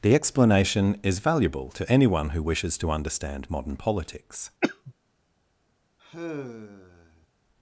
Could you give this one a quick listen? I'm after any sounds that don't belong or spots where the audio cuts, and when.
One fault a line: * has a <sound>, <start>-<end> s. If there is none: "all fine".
* has a cough, 4.6-4.9 s
* has a sigh, 6.0-7.3 s